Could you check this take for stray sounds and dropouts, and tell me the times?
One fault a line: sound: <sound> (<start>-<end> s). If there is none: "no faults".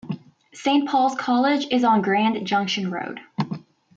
no faults